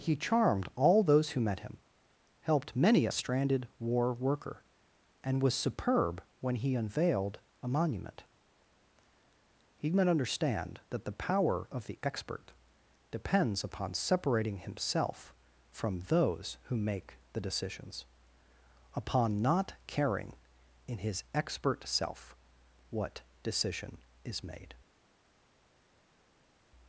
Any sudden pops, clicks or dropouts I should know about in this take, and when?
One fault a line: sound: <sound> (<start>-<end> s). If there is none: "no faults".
no faults